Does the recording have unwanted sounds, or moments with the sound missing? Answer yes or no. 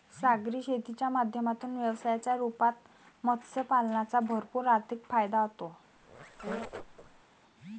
yes